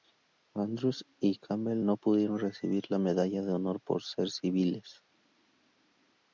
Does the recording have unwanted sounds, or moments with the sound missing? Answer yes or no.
no